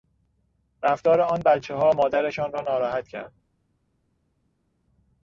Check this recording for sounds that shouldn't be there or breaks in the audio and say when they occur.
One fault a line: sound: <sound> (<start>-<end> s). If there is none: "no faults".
no faults